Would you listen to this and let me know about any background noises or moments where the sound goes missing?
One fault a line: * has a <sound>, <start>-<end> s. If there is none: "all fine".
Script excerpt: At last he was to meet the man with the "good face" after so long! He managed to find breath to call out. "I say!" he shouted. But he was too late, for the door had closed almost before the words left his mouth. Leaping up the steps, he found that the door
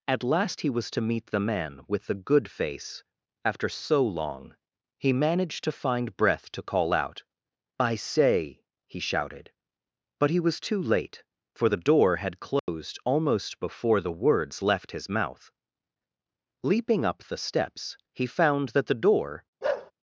* has a dropout, 12.6-12.7 s
* has a bark, 19.6-19.9 s